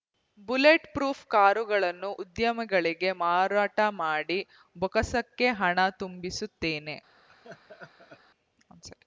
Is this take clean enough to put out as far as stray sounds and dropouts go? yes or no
no